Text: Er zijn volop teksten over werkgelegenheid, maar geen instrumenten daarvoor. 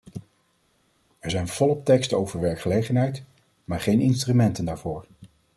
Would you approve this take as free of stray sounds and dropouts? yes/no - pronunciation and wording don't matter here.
yes